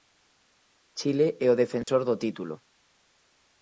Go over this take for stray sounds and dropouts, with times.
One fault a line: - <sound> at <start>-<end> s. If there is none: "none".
- dropout at 1.8-1.9 s